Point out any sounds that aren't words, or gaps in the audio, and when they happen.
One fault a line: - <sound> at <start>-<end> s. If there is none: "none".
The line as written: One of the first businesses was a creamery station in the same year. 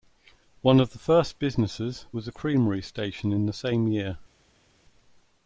none